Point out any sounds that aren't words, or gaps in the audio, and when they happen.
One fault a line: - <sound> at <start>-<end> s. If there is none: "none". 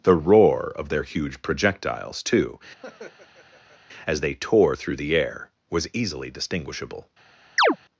- laugh at 2.8-3.8 s
- chirp at 7.6-7.8 s